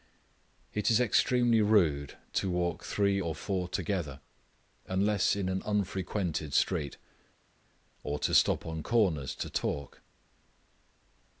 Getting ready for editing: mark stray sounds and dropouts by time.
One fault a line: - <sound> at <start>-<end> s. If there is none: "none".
none